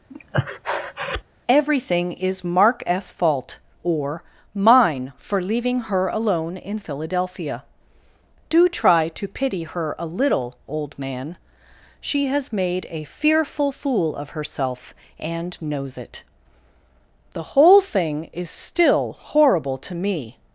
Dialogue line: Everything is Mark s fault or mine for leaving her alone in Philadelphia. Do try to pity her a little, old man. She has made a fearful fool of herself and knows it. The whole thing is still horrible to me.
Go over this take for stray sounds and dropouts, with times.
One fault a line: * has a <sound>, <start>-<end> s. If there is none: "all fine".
* has a breath, 0.1-1.2 s